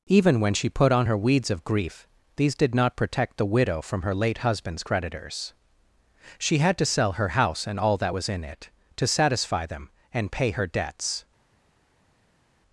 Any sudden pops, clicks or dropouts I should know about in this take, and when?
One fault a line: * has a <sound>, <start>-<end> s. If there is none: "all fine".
all fine